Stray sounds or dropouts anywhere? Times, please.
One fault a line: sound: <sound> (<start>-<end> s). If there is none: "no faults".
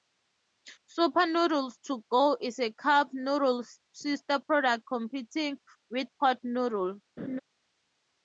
sound: laugh (7.2-7.4 s)